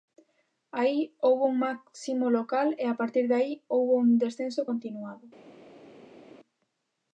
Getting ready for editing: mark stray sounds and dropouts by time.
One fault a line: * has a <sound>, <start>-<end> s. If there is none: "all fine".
all fine